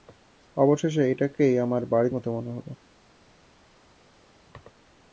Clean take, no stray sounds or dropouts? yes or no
yes